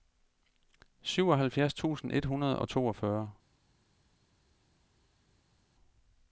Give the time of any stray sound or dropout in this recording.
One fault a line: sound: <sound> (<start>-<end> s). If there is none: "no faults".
no faults